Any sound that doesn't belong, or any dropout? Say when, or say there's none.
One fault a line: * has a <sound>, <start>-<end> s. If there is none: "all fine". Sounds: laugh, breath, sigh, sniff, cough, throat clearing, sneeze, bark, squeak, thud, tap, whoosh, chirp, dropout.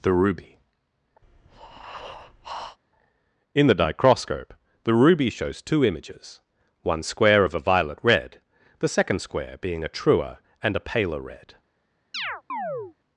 * has a breath, 1.2-2.8 s
* has a chirp, 12.1-12.9 s